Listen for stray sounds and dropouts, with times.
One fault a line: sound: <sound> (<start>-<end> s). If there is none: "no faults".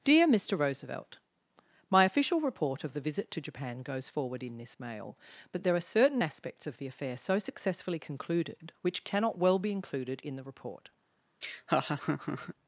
sound: laugh (11.4-12.5 s)